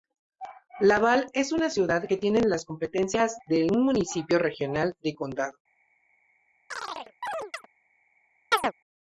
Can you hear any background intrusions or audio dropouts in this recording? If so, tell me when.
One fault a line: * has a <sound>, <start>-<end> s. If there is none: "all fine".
* has a chirp, 6.7-7.7 s
* has a chirp, 8.5-8.7 s